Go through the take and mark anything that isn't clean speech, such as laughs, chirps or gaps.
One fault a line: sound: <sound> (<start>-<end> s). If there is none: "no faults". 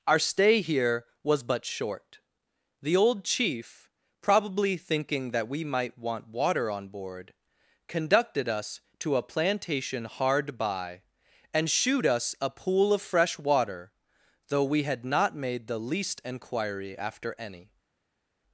no faults